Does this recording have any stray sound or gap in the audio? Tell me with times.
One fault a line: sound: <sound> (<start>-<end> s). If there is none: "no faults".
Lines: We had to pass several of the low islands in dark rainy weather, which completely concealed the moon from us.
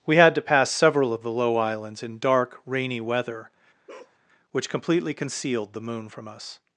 sound: bark (3.9-4.2 s)